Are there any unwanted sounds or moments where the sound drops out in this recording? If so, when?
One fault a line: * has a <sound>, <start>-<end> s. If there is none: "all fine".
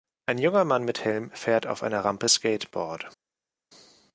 all fine